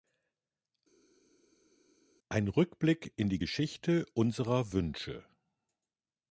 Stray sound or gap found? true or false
false